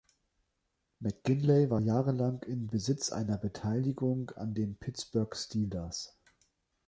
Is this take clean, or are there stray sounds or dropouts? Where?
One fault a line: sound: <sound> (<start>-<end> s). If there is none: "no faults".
no faults